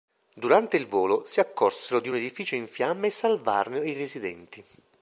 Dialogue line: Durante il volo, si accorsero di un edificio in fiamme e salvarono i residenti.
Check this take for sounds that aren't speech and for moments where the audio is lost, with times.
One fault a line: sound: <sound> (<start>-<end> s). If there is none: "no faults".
no faults